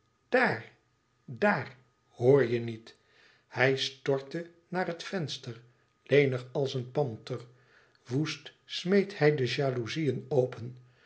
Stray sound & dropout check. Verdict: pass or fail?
pass